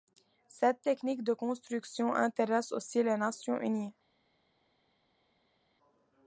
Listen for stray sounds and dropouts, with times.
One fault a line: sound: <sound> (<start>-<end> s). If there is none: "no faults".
no faults